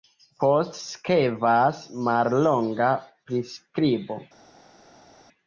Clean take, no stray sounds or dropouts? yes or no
yes